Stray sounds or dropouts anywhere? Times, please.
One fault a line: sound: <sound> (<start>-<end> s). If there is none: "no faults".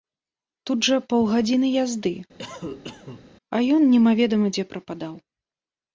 sound: cough (2.4-3.3 s)